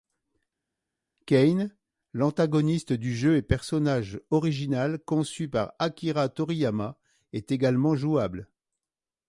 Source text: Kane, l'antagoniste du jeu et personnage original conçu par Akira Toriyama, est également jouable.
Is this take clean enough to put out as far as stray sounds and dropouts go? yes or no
yes